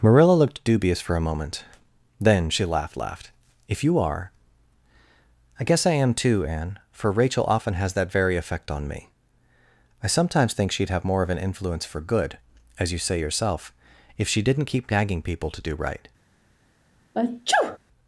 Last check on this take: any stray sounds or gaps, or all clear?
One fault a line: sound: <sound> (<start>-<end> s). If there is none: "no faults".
sound: sneeze (17.1-17.8 s)